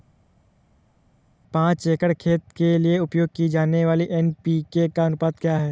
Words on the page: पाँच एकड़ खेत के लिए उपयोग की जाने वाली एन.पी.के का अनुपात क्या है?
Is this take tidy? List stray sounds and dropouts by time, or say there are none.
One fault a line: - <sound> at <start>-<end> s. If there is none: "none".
none